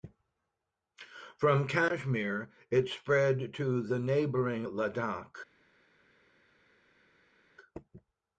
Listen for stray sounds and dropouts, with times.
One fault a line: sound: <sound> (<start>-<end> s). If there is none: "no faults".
no faults